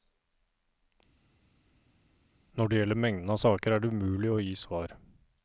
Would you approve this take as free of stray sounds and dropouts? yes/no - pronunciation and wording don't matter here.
yes